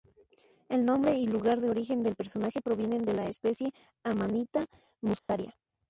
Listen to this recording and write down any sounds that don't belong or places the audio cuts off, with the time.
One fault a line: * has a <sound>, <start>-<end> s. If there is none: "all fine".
* has a dropout, 5.2-5.3 s